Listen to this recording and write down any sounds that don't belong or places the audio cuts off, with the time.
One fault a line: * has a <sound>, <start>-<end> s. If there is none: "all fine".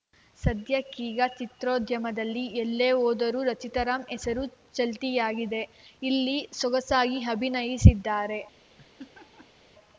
* has a laugh, 8.7-9.6 s